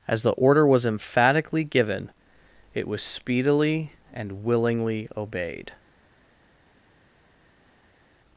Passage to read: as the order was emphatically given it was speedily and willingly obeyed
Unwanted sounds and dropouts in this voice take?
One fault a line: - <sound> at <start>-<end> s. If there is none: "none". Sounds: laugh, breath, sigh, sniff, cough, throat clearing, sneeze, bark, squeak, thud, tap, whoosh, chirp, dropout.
none